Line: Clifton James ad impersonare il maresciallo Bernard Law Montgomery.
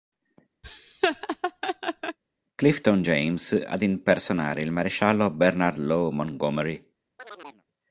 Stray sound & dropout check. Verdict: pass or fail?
fail